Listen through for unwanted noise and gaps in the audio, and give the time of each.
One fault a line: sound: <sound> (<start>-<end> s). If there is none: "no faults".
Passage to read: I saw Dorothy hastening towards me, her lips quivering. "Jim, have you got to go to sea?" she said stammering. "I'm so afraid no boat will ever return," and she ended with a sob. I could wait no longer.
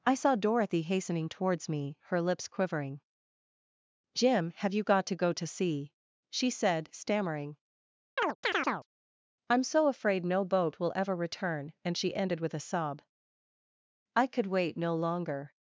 sound: chirp (8.2-8.9 s)